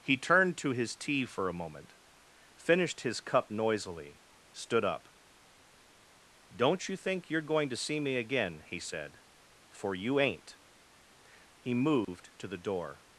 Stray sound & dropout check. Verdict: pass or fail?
fail